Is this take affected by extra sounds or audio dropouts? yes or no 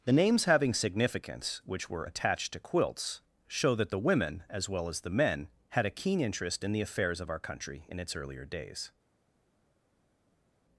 no